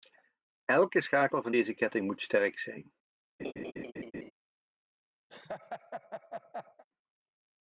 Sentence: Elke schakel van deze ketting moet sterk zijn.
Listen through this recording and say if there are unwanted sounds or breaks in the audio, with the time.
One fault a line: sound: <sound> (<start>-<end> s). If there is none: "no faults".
sound: laugh (3.4-4.3 s)
sound: laugh (5.3-6.8 s)